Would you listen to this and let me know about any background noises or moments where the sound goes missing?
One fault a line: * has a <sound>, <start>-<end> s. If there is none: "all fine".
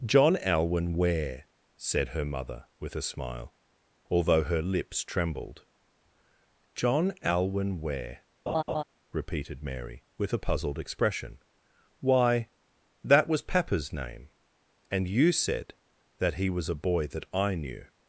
* has a laugh, 8.5-8.8 s